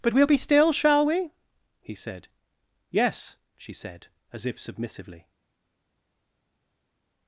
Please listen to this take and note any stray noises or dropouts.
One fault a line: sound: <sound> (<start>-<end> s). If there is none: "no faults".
no faults